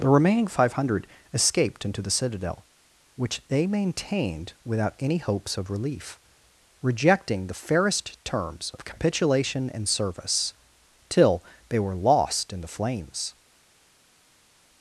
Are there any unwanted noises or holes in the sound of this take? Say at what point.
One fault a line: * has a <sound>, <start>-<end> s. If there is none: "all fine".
all fine